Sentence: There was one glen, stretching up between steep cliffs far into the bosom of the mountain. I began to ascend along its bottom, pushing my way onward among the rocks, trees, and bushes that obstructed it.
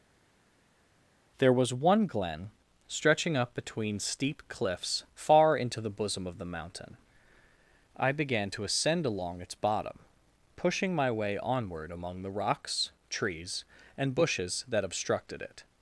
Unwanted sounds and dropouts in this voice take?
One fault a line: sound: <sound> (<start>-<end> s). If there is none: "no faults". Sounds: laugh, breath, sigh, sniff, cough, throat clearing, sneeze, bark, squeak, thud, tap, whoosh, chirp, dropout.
no faults